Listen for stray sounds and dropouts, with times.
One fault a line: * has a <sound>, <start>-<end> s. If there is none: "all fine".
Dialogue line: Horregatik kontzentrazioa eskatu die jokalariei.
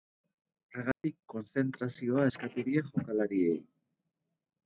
* has a dropout, 0.9-1.0 s